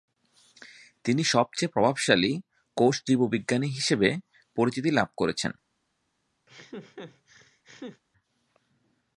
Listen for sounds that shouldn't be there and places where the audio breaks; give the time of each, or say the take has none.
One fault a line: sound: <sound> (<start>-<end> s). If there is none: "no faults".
sound: laugh (6.5-8.0 s)